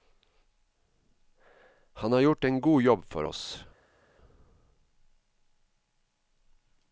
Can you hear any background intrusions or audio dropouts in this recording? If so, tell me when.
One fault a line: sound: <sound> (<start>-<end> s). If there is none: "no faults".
no faults